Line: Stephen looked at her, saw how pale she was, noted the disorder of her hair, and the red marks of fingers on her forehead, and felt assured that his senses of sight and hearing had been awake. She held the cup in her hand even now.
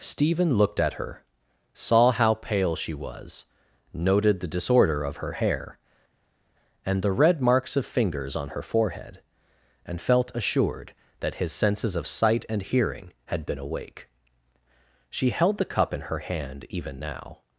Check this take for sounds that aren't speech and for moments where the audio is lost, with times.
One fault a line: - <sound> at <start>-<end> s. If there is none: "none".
none